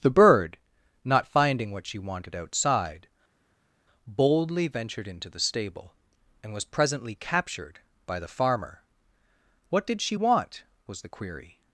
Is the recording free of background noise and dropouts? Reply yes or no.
yes